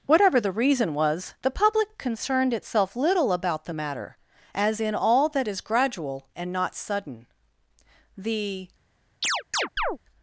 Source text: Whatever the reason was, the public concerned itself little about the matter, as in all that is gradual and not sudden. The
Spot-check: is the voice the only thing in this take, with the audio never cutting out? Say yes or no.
no